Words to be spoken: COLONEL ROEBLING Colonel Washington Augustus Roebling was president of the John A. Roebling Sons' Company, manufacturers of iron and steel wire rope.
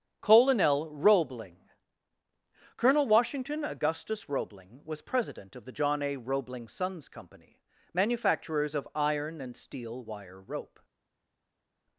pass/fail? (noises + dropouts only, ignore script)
pass